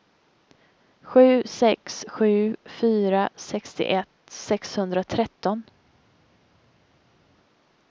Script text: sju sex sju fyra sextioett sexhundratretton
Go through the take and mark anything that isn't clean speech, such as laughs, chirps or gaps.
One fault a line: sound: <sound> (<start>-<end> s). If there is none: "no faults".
no faults